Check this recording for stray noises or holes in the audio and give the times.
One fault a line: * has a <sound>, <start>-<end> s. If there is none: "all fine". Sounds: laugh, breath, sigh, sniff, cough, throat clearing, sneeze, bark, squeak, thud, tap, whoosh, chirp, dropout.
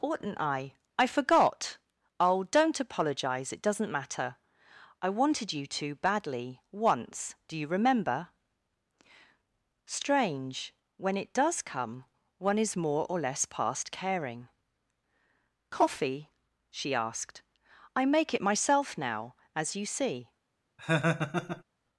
* has a laugh, 20.8-21.6 s